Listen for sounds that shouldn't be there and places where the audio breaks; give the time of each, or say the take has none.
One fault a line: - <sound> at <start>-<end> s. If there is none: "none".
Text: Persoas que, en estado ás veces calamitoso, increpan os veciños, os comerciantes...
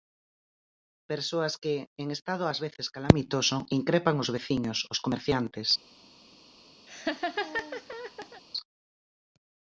- laugh at 6.9-8.4 s